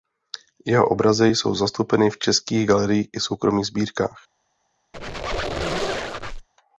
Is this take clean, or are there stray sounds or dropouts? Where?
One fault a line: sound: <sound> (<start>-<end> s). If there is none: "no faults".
sound: squeak (4.9-6.5 s)